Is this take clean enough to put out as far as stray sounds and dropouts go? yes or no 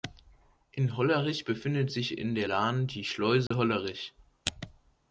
no